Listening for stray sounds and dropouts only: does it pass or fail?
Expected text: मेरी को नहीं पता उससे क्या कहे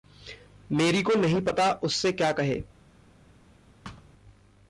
fail